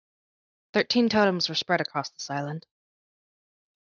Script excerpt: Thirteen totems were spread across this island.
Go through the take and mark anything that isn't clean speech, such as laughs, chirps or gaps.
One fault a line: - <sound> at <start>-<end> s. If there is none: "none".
none